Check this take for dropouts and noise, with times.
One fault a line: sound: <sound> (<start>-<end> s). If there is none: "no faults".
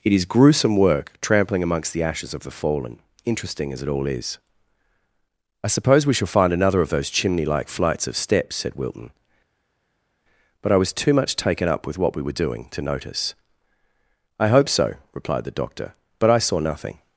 no faults